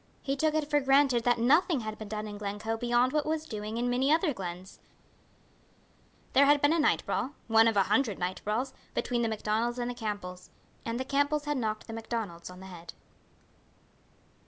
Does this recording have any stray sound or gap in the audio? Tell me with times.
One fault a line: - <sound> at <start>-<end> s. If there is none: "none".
none